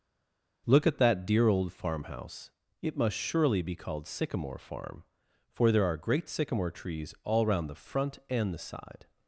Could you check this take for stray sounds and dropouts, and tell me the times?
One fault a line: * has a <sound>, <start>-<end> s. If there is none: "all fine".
all fine